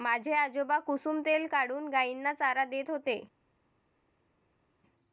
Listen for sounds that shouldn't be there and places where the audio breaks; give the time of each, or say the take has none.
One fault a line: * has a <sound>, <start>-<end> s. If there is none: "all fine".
all fine